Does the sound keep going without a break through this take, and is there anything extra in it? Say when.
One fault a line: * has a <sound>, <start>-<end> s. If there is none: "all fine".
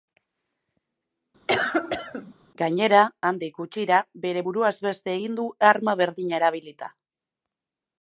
* has a cough, 1.5-2.3 s